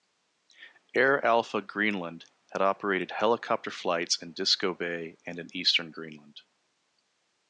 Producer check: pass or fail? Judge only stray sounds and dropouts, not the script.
pass